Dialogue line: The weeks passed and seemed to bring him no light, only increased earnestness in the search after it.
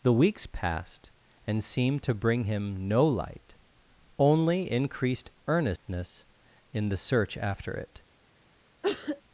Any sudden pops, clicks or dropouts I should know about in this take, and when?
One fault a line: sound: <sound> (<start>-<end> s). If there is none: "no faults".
sound: dropout (5.8-5.8 s)
sound: cough (8.8-9.2 s)